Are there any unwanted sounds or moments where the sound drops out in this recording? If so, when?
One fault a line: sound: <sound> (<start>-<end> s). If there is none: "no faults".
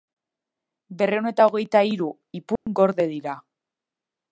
sound: dropout (2.6-2.7 s)